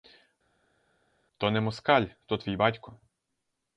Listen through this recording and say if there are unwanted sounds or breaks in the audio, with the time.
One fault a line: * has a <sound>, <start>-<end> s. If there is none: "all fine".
all fine